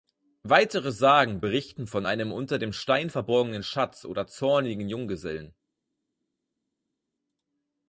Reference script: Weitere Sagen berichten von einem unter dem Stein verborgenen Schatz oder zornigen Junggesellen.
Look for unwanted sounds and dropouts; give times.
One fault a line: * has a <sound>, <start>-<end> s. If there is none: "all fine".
all fine